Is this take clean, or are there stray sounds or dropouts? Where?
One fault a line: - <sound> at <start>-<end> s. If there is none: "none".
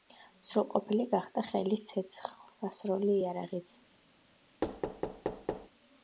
- thud at 4.6-5.7 s